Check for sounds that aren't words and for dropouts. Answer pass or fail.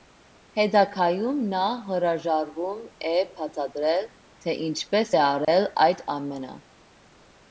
fail